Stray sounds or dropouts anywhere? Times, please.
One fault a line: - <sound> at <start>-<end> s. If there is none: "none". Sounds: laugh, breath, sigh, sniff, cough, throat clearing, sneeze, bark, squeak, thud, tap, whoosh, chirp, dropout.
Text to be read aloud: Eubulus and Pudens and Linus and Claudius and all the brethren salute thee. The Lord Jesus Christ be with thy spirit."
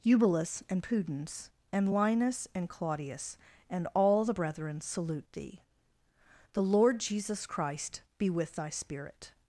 none